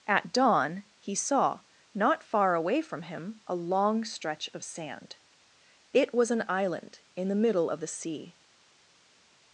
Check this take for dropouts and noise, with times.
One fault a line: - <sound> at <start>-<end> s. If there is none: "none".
none